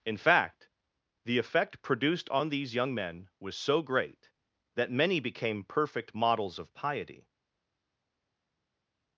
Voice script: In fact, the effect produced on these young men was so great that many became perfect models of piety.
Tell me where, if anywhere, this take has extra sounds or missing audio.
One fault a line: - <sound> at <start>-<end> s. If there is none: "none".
none